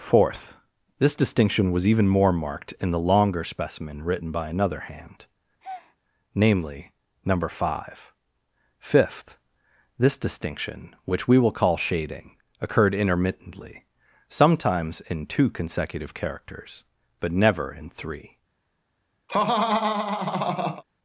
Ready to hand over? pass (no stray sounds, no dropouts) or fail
fail